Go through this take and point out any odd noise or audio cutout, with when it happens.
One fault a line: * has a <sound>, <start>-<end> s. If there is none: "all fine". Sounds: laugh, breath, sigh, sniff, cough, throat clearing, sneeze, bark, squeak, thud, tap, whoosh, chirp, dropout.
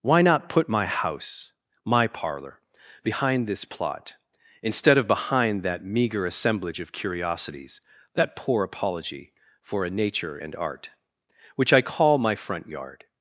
all fine